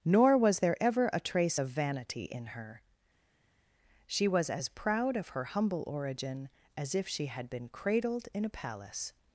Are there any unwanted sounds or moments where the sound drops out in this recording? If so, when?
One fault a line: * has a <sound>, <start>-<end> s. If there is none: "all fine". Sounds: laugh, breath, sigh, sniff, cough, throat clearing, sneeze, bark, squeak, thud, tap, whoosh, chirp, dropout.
all fine